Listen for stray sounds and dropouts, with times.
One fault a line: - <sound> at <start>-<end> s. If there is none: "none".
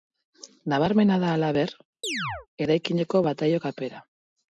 - chirp at 2.0-2.5 s